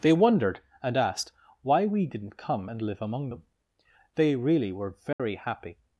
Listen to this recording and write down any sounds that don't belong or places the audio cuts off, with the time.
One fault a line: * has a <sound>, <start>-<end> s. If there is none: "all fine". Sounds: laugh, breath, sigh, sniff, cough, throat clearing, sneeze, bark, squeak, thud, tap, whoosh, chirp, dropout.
* has a dropout, 5.1-5.2 s